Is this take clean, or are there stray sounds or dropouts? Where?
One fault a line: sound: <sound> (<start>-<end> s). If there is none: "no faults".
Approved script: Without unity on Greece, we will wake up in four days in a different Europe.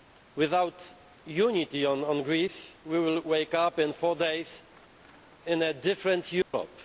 sound: dropout (6.4-6.5 s)